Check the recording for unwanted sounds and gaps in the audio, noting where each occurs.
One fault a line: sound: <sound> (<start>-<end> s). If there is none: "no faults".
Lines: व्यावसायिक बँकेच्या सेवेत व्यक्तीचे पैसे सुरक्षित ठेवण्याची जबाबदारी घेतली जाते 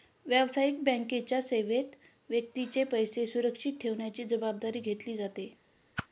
sound: whoosh (6.0-6.1 s)